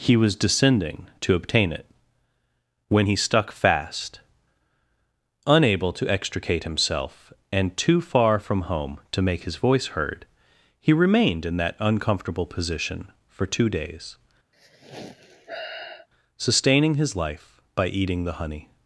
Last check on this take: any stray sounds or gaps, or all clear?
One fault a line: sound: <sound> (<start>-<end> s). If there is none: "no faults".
sound: sigh (14.5-16.1 s)